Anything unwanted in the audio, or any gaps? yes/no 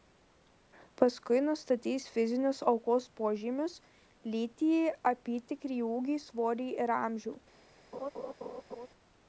yes